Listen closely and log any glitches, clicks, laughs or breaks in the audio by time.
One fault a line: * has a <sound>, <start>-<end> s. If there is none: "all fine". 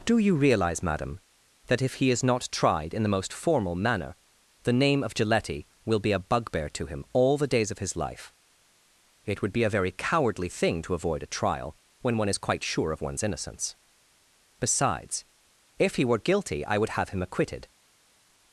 all fine